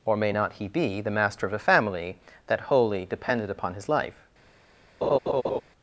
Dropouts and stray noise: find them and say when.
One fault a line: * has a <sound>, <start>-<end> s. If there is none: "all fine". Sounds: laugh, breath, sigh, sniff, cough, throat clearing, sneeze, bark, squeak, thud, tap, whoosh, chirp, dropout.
* has a laugh, 5.0-5.6 s